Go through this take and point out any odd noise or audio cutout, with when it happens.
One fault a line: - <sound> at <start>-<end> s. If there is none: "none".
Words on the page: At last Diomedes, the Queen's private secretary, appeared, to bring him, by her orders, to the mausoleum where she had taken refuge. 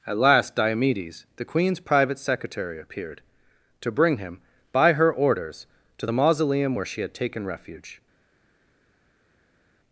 none